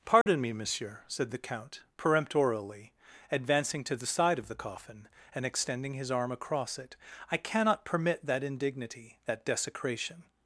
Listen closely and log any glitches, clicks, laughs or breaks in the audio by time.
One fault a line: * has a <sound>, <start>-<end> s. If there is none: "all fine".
* has a dropout, 0.2-0.3 s